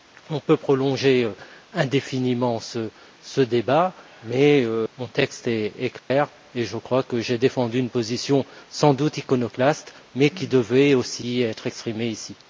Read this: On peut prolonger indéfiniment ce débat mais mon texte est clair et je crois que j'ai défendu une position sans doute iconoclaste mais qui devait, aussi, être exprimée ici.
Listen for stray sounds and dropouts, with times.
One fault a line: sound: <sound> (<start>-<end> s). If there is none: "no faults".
sound: dropout (6.0-6.1 s)